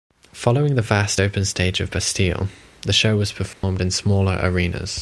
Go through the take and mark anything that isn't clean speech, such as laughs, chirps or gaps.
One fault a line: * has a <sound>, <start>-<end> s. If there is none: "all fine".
* has a dropout, 3.5-3.6 s